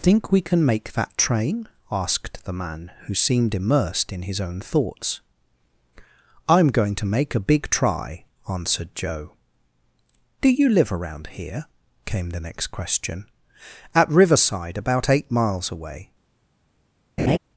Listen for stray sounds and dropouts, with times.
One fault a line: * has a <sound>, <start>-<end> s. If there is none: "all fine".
* has a laugh, 17.2-17.4 s